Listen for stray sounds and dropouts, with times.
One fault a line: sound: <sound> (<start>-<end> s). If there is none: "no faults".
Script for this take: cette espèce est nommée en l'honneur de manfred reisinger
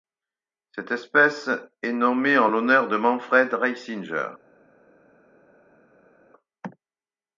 no faults